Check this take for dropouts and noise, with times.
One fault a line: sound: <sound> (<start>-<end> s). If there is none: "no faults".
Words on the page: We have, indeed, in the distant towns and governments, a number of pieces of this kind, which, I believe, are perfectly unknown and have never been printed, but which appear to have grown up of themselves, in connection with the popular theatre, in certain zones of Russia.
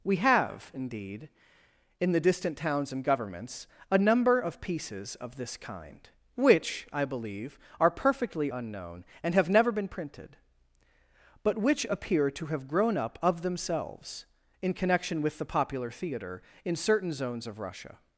no faults